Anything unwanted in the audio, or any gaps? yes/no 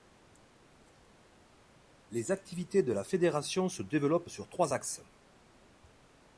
no